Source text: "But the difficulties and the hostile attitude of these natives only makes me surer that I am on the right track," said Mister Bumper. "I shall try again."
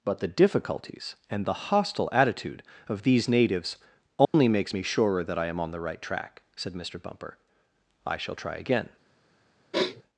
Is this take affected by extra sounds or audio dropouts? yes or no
yes